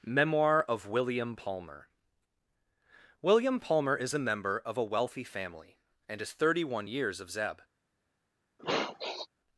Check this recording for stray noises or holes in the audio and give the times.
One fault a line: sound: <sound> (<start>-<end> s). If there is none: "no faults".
sound: sniff (8.6-9.3 s)